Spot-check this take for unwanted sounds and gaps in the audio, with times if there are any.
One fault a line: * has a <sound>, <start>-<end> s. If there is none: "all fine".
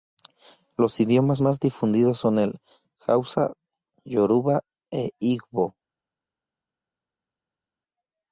all fine